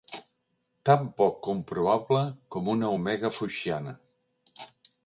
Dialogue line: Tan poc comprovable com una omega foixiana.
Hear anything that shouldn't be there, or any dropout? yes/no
no